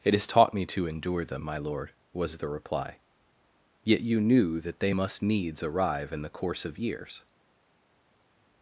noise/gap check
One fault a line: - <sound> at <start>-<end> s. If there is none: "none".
none